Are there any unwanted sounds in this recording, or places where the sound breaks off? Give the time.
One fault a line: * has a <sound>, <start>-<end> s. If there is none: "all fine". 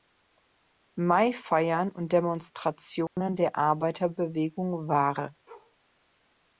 * has a dropout, 3.1-3.2 s
* has a bark, 5.5-5.8 s